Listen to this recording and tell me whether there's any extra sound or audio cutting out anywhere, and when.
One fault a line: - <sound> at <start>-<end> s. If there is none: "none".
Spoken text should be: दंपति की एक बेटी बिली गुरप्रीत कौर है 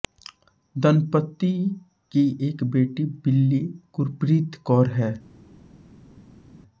none